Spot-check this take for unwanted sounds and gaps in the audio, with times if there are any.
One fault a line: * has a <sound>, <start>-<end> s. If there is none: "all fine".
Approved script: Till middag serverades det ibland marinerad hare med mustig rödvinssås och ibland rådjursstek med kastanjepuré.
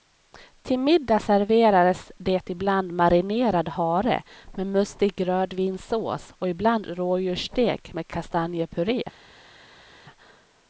all fine